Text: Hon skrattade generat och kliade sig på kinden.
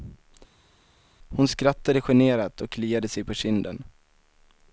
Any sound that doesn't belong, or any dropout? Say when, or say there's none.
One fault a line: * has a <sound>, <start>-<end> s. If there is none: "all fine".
all fine